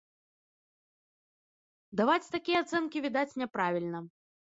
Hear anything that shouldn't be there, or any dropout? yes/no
no